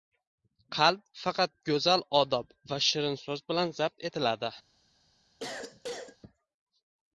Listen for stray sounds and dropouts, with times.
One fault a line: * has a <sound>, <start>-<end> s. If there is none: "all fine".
* has a cough, 5.4-6.2 s